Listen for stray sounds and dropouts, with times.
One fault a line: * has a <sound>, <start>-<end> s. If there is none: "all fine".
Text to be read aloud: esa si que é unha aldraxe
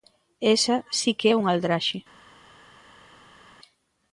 all fine